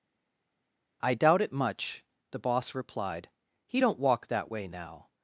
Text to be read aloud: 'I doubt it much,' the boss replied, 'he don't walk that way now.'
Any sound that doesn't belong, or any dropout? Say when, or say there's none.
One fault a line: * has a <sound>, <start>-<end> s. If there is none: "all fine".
all fine